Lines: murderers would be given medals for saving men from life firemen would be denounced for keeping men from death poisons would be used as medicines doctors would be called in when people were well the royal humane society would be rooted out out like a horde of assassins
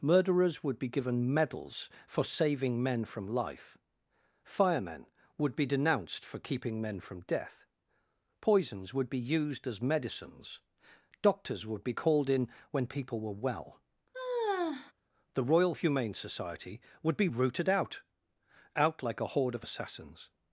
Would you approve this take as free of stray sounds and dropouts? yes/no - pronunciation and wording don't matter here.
no